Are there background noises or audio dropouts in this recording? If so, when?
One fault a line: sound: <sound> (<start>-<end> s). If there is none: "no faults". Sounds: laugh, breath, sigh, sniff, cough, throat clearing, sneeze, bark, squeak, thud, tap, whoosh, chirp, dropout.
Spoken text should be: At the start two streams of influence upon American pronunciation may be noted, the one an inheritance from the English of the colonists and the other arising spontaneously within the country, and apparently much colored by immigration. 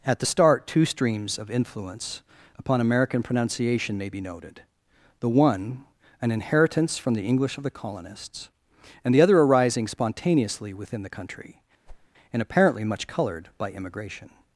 sound: whoosh (11.9-12.1 s)